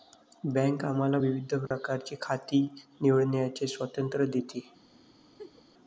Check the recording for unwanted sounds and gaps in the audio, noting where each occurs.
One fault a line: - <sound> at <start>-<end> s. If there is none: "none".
- dropout at 1.7-1.7 s
- laugh at 5.4-5.6 s